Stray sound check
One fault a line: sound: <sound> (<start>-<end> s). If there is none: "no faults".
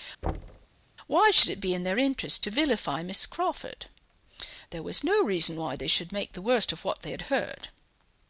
sound: thud (0.2-0.7 s)